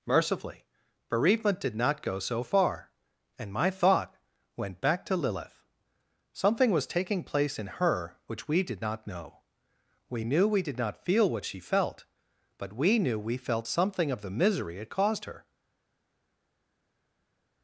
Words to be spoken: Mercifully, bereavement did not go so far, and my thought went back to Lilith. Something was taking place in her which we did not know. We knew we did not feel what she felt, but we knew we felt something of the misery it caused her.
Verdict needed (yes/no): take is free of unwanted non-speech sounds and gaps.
yes